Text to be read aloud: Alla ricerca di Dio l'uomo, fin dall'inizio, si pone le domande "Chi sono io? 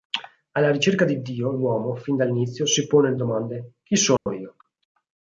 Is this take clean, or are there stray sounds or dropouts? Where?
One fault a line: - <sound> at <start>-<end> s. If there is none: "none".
- dropout at 4.2-4.3 s